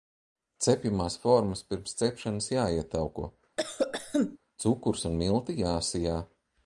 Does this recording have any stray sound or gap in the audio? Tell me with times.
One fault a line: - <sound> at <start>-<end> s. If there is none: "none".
- cough at 3.6-4.4 s